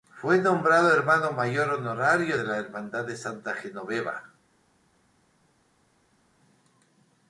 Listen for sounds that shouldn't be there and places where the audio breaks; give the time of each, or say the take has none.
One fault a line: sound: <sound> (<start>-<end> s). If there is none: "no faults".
no faults